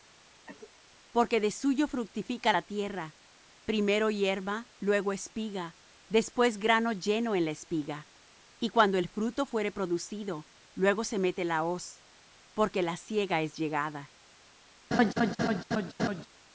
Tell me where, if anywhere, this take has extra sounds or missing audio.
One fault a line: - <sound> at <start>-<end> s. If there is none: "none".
- cough at 0.5-0.7 s
- laugh at 14.9-16.3 s